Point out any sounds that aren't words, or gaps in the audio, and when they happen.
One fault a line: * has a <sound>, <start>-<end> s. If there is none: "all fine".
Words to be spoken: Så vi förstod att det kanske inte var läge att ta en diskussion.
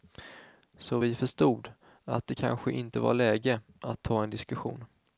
all fine